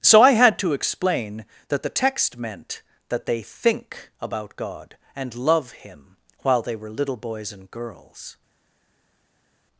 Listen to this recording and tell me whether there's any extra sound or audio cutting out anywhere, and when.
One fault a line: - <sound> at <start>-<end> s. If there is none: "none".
none